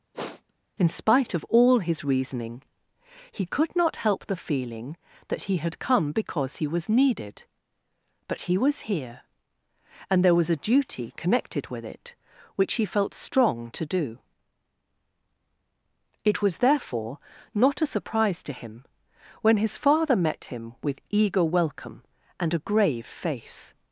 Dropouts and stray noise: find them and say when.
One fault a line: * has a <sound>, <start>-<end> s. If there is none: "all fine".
* has a sniff, 0.1-0.5 s